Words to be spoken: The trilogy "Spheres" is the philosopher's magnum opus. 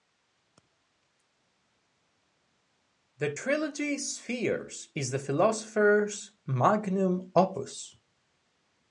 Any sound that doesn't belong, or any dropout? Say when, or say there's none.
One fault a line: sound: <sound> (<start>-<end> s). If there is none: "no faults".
no faults